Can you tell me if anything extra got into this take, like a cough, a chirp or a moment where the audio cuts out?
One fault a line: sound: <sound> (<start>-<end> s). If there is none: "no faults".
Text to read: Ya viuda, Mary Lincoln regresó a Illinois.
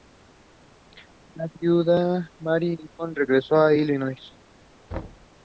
sound: thud (4.9-5.3 s)